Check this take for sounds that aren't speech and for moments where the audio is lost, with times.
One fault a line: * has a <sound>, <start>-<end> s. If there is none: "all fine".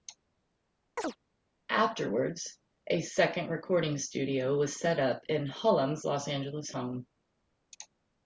* has a chirp, 1.0-1.2 s